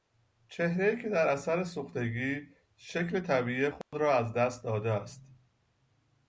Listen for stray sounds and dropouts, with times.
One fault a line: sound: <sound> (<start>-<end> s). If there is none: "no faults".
sound: dropout (3.8-3.9 s)